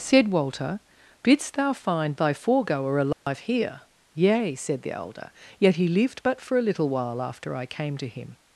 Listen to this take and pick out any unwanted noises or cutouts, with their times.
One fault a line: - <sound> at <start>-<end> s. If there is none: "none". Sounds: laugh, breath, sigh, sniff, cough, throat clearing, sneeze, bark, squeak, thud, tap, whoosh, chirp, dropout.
- dropout at 3.1-3.3 s